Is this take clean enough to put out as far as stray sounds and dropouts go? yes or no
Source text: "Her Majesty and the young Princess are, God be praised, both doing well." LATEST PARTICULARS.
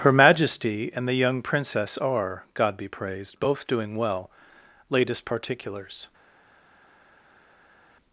yes